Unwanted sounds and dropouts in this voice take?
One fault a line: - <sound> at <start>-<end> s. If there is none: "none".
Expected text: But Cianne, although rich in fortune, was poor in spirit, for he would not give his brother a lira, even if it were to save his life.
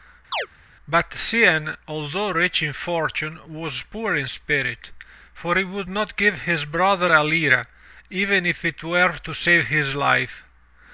- chirp at 0.3-0.5 s